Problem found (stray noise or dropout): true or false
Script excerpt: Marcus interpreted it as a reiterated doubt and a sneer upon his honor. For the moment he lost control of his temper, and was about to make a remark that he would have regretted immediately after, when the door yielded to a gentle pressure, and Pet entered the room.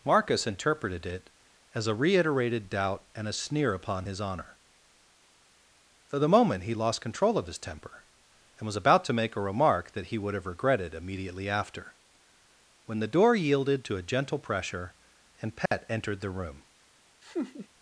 true